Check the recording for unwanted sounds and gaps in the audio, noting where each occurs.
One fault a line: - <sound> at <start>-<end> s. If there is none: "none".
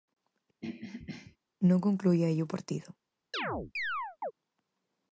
- throat clearing at 0.6-1.4 s
- chirp at 3.3-4.3 s